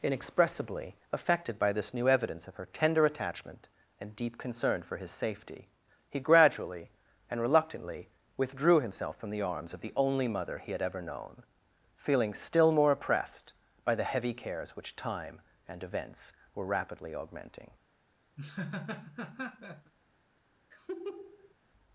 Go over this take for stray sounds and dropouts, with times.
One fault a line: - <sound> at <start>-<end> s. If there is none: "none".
- laugh at 18.4-19.9 s
- laugh at 20.7-21.5 s